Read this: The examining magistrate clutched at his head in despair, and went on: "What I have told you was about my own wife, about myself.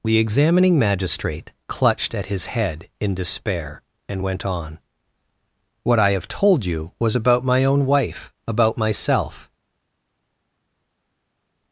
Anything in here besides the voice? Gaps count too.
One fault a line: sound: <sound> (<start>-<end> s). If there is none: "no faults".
no faults